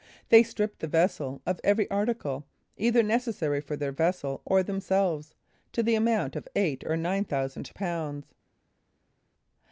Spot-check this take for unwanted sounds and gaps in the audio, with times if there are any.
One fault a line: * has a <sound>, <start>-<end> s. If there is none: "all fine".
all fine